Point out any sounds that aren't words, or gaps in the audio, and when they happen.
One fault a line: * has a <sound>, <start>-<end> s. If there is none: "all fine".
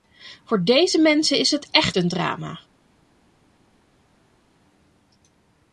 all fine